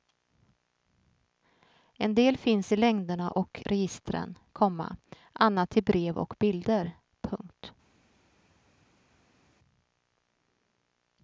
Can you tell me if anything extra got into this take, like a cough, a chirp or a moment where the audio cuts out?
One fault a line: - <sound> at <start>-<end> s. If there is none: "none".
none